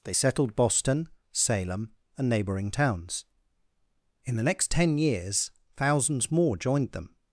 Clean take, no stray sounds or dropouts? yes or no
yes